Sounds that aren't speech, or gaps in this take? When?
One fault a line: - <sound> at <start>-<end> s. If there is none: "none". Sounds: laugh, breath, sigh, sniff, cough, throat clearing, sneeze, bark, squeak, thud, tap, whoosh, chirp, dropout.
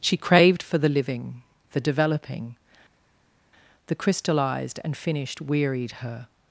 none